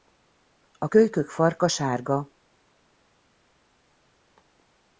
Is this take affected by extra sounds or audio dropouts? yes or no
no